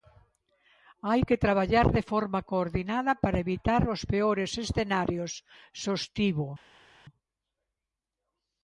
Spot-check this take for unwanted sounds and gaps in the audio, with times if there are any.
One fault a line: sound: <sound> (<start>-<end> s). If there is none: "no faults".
no faults